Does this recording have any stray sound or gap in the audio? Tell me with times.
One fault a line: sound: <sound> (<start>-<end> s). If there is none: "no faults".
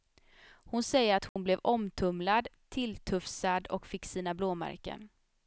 sound: dropout (1.3-1.4 s)